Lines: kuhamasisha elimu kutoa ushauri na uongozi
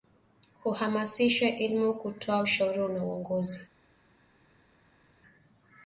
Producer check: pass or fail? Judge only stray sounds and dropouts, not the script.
pass